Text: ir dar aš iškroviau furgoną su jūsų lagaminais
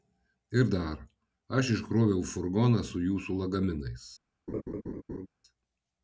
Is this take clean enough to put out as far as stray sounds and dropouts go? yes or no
no